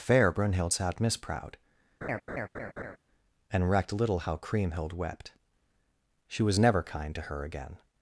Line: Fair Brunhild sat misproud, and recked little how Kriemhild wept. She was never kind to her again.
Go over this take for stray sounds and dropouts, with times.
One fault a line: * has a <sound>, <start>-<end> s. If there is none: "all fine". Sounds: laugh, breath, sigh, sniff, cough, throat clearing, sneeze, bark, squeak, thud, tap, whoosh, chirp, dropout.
* has a laugh, 2.0-3.0 s